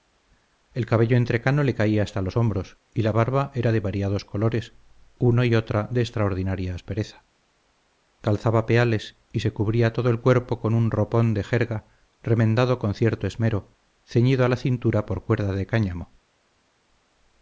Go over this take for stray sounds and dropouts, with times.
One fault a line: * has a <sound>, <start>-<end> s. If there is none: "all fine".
all fine